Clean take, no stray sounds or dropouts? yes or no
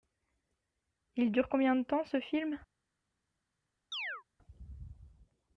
no